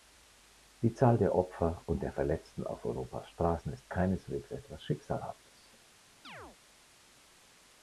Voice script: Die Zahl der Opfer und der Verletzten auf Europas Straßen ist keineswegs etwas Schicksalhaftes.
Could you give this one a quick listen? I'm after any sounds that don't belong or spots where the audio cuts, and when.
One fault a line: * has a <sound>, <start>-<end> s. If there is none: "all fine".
* has a chirp, 6.2-6.6 s